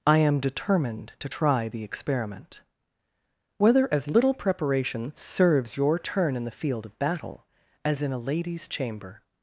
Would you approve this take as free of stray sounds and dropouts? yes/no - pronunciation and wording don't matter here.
yes